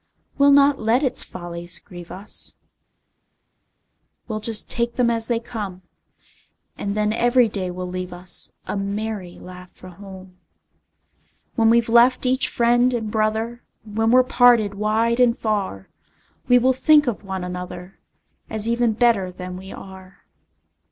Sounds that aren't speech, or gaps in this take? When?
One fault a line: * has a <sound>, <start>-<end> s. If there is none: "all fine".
all fine